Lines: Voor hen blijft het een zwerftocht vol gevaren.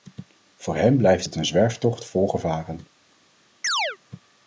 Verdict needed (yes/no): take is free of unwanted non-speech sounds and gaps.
no